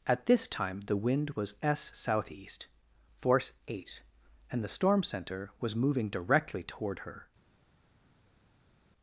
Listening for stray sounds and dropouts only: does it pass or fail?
pass